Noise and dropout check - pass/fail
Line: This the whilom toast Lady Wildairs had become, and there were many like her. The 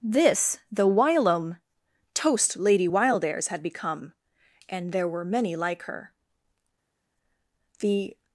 pass